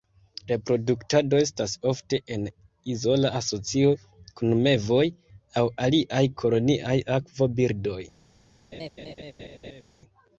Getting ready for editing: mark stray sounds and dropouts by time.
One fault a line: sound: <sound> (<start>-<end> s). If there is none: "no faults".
sound: laugh (8.7-9.8 s)